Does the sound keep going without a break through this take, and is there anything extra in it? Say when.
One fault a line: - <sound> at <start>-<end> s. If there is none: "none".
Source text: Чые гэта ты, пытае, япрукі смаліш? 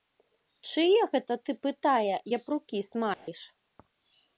- dropout at 3.1-3.3 s